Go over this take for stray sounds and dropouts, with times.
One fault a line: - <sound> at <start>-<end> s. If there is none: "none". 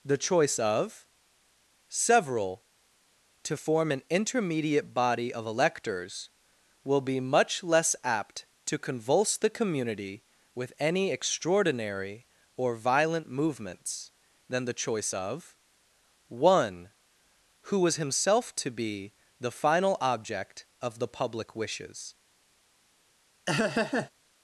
- laugh at 23.5-24.1 s